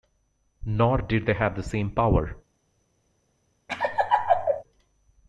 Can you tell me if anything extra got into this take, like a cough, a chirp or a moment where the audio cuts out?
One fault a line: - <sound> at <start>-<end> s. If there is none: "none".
- laugh at 3.7-4.6 s